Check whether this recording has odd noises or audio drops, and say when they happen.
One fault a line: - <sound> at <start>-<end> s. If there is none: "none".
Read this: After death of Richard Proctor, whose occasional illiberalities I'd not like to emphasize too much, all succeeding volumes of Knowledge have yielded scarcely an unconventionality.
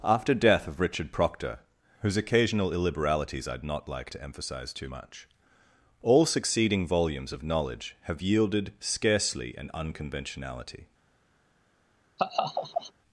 - laugh at 12.2-12.9 s